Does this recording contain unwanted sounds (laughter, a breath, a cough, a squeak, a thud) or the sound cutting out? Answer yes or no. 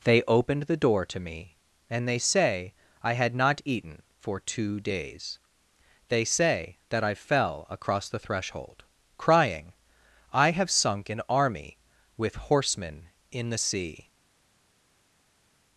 no